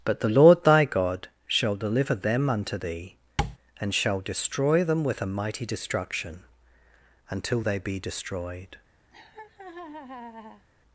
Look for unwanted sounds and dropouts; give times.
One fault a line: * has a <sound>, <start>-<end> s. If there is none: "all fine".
* has a tap, 3.4-3.6 s
* has a laugh, 9.1-10.7 s